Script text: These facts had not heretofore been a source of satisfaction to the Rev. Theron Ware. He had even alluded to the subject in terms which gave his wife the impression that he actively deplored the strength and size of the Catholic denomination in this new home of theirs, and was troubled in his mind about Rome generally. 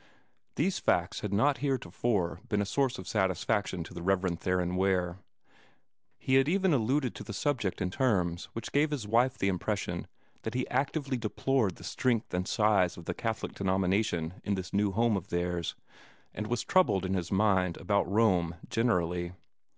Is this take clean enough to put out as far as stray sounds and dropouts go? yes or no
yes